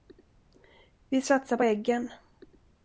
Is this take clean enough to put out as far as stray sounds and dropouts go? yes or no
yes